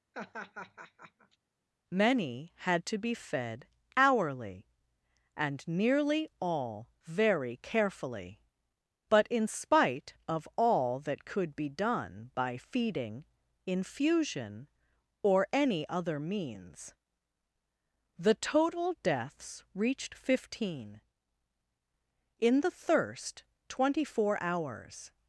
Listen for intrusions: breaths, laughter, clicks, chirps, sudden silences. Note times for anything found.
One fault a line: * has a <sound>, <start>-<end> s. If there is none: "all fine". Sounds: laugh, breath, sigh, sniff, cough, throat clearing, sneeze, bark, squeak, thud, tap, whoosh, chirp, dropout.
* has a laugh, 0.1-1.4 s